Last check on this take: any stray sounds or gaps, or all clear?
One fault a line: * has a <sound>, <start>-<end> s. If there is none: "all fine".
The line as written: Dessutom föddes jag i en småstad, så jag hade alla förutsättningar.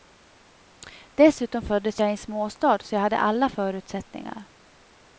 all fine